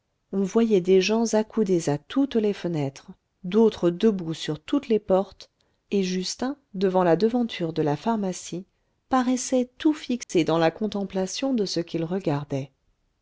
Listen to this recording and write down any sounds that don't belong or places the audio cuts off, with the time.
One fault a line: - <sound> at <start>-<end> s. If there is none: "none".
- dropout at 10.2-10.3 s